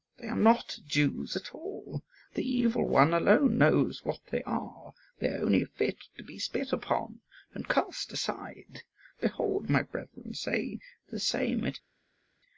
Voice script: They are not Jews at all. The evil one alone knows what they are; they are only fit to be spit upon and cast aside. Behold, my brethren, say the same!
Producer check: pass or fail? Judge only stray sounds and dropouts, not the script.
pass